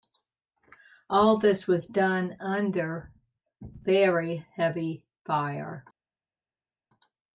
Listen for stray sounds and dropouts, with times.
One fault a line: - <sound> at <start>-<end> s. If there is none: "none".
none